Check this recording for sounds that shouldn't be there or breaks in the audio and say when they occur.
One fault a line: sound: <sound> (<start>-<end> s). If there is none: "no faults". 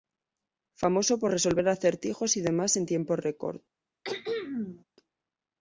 sound: throat clearing (4.0-4.8 s)